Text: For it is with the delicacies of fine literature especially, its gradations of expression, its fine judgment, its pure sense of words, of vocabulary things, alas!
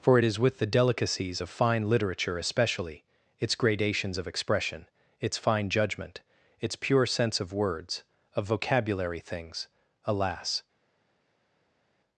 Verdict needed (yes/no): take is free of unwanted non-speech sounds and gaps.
yes